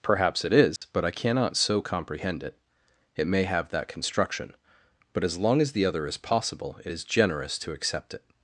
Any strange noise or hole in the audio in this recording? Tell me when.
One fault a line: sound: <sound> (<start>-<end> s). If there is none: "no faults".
sound: dropout (0.8-0.8 s)